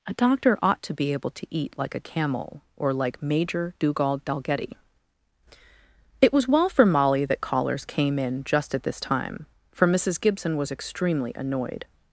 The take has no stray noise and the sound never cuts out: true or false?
true